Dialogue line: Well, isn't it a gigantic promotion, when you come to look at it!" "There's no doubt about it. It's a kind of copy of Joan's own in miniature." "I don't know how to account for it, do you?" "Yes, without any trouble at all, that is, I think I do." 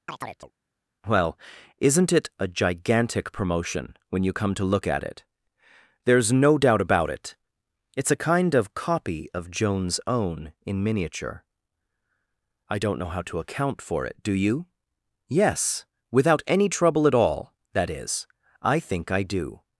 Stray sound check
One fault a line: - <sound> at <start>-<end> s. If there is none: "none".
- chirp at 0.1-0.5 s